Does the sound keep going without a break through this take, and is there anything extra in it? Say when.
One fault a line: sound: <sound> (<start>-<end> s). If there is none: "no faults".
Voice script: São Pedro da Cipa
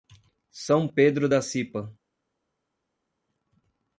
no faults